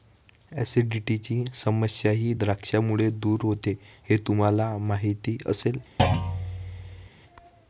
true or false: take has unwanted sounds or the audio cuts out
true